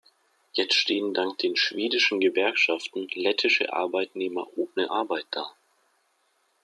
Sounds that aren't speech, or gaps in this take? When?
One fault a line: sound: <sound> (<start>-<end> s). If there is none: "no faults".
no faults